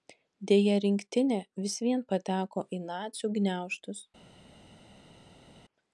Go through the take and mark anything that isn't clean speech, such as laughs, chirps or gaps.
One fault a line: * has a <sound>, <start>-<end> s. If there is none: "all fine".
all fine